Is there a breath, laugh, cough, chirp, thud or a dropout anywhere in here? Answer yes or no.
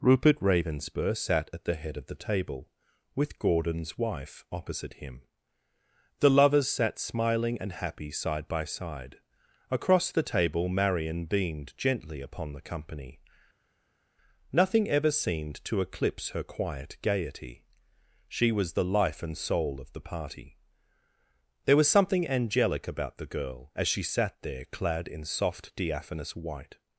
no